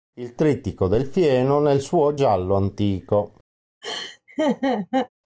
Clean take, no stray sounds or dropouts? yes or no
no